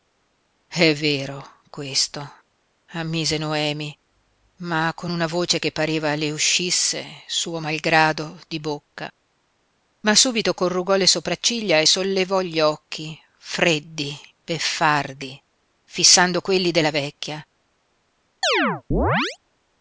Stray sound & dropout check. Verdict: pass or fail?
fail